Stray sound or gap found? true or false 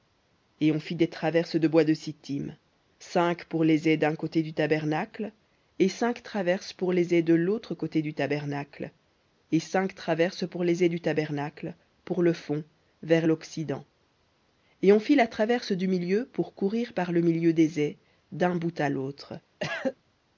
true